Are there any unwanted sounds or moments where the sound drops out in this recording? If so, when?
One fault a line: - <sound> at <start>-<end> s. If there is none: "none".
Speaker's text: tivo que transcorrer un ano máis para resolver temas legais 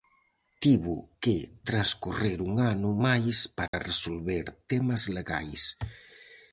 - dropout at 3.7-3.7 s